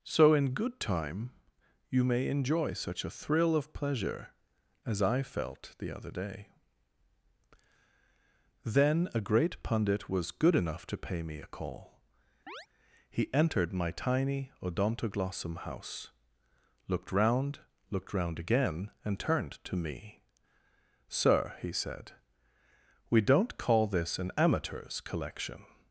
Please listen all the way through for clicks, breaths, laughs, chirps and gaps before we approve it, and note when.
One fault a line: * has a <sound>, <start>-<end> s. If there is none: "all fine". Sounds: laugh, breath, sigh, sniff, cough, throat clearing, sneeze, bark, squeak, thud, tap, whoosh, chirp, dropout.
* has a chirp, 12.5-12.7 s